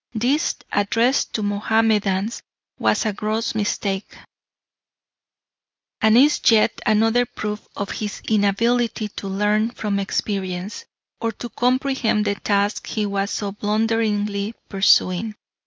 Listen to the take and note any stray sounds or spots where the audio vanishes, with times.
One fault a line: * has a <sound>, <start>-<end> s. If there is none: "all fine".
all fine